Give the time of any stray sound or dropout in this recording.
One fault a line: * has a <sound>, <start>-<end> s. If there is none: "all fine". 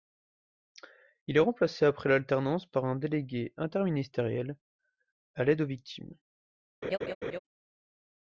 * has a laugh, 6.8-7.4 s